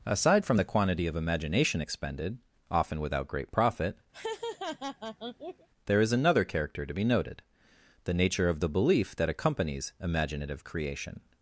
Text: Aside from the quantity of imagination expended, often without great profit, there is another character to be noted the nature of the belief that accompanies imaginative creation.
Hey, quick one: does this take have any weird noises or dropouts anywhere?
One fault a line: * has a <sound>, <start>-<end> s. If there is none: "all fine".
* has a laugh, 4.1-5.7 s